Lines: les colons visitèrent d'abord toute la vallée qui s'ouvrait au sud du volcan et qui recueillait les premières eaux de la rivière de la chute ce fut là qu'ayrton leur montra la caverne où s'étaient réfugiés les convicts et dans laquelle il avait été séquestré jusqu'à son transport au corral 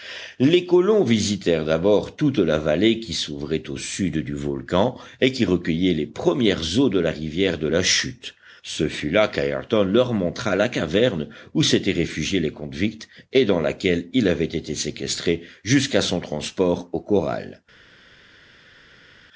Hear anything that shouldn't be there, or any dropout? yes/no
no